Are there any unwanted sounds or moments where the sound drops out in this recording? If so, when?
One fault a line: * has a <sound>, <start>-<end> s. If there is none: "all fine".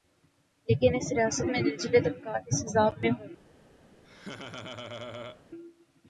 * has a laugh, 4.0-5.4 s